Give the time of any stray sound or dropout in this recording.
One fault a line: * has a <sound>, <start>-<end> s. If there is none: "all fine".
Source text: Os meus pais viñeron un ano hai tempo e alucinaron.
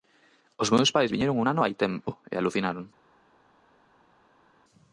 all fine